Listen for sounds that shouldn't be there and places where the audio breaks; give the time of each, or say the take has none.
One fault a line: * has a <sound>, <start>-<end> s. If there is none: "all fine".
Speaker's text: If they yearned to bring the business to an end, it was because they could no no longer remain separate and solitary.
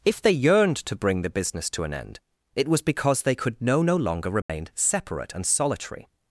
* has a dropout, 4.4-4.5 s